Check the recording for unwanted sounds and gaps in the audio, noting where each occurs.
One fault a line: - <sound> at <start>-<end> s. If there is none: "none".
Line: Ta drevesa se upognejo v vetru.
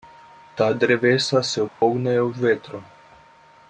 - dropout at 1.7-1.8 s